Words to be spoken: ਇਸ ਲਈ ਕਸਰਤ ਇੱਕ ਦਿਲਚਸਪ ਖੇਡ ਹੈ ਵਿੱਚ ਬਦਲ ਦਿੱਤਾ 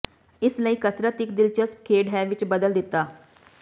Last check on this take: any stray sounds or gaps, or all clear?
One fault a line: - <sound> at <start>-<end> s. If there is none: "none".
none